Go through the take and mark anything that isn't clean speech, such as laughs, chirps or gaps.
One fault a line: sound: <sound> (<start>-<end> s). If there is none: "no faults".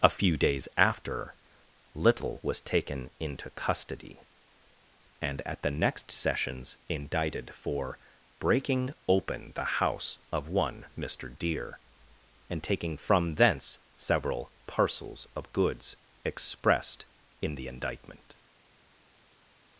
no faults